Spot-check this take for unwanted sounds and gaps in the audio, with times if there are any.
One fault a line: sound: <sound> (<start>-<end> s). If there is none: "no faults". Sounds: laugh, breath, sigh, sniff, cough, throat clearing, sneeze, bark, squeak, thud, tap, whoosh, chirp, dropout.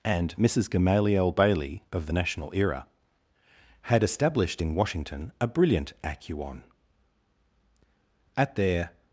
no faults